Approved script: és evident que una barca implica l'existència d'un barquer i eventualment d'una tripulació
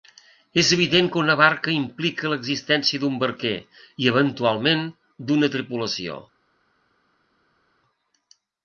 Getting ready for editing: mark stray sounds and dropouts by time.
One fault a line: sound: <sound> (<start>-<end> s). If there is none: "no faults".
no faults